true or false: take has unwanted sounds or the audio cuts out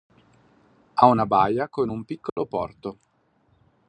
true